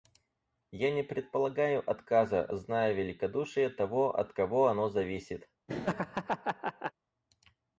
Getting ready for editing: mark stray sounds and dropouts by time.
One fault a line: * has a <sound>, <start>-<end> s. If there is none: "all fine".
* has a laugh, 5.7-6.9 s